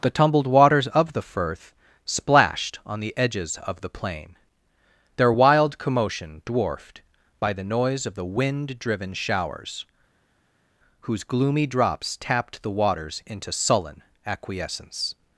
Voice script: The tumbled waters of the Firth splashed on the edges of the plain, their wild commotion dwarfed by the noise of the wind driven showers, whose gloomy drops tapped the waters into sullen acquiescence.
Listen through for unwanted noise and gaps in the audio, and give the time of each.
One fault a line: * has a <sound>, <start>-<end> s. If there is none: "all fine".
all fine